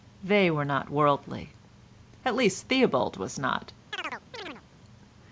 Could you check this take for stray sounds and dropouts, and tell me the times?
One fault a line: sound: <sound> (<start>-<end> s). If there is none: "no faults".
sound: chirp (3.9-4.6 s)